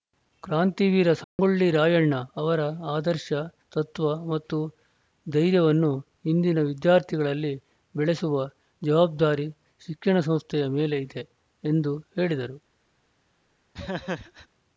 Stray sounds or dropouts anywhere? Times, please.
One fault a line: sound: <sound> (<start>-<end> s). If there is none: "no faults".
sound: dropout (1.2-1.4 s)
sound: laugh (13.7-14.5 s)